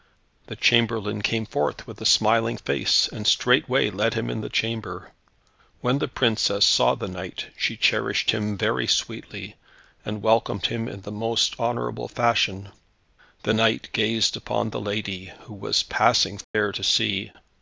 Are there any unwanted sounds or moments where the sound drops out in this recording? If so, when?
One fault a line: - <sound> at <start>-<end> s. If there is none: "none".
- dropout at 16.4-16.5 s